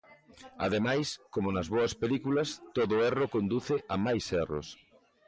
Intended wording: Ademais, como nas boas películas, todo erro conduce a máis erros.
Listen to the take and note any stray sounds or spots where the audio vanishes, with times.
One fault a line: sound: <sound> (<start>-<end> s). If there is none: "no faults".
no faults